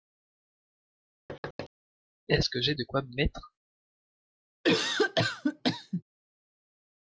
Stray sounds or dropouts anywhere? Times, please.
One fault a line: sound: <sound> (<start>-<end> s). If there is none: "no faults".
sound: thud (1.3-1.7 s)
sound: cough (4.6-6.0 s)